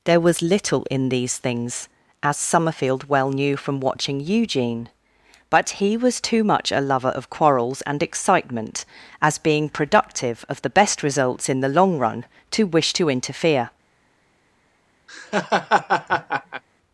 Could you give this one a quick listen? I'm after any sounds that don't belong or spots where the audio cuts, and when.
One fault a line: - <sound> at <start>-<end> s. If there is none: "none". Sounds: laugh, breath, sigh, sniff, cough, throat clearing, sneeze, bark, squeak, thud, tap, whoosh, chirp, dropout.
- laugh at 15.1-16.6 s